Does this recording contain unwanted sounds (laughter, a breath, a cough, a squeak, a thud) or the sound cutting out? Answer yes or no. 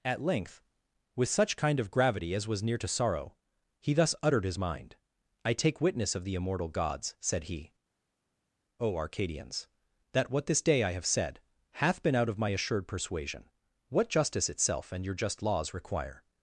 no